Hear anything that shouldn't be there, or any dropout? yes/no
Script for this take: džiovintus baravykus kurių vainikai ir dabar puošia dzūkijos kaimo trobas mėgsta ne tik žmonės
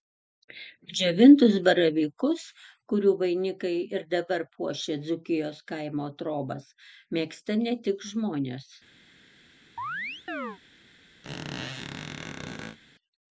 yes